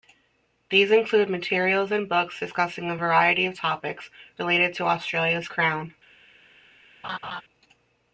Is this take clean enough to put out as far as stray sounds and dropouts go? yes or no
no